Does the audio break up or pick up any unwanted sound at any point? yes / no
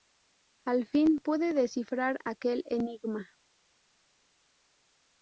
no